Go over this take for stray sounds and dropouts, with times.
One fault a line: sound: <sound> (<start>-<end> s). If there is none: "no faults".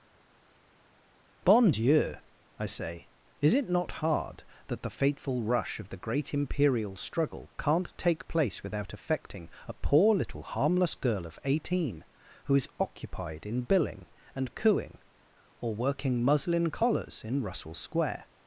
no faults